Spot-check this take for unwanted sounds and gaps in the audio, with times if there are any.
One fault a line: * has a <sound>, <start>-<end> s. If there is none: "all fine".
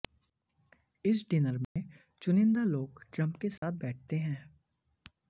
* has a dropout, 1.6-1.8 s
* has a dropout, 3.6-3.6 s